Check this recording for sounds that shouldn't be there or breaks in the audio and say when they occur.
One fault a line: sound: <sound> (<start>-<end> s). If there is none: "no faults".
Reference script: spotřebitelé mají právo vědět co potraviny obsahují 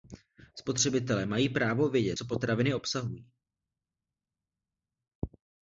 no faults